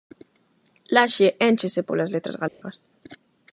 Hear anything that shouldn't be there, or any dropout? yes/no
yes